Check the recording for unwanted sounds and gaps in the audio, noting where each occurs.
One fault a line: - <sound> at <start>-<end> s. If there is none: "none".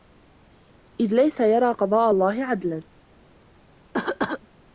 - cough at 3.9-4.4 s